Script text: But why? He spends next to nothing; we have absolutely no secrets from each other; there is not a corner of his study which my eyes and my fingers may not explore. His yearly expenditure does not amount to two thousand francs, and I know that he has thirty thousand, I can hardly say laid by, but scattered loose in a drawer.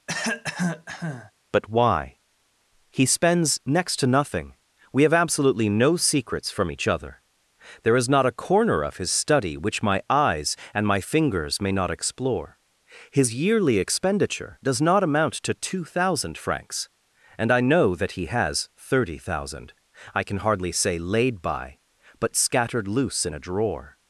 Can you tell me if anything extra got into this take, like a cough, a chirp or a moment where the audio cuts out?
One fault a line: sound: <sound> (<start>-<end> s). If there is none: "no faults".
sound: cough (0.1-1.3 s)